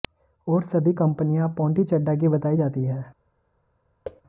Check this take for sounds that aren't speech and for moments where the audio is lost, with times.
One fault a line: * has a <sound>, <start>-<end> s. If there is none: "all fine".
* has a thud, 4.0-4.2 s